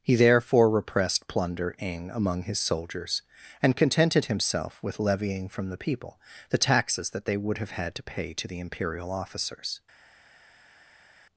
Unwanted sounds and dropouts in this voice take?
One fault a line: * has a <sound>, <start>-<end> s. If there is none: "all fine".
all fine